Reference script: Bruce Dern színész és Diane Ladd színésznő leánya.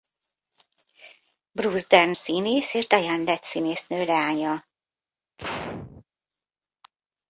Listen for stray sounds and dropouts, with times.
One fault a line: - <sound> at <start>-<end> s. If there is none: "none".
- sneeze at 5.4-6.0 s